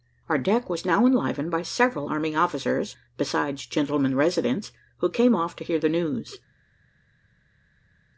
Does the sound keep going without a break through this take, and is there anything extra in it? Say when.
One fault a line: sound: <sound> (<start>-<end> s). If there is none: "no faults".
no faults